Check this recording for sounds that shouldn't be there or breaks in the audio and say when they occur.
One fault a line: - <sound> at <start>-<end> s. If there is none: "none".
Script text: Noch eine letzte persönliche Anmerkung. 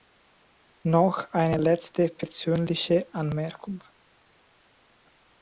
none